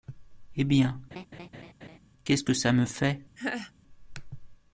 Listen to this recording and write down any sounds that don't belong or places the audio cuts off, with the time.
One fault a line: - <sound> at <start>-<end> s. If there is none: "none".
- laugh at 1.1-2.0 s
- laugh at 3.4-3.7 s